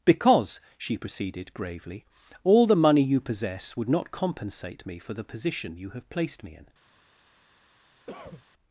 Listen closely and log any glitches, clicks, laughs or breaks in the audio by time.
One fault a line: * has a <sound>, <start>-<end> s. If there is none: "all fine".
* has a cough, 8.1-8.4 s